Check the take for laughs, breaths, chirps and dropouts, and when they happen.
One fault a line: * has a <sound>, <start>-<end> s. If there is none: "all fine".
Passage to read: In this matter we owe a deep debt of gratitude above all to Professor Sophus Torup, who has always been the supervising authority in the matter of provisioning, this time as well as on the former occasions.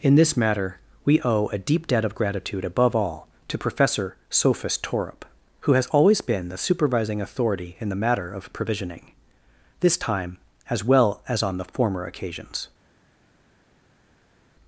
all fine